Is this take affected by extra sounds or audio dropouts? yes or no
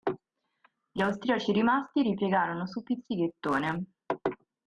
no